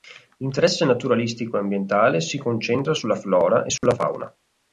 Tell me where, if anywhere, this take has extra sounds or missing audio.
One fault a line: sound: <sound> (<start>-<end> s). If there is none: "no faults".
sound: dropout (3.8-3.8 s)